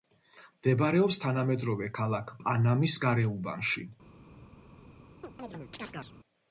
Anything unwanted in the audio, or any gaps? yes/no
yes